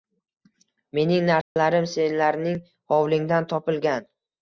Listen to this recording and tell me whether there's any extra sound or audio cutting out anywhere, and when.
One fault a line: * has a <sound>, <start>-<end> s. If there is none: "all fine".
* has a dropout, 1.4-1.6 s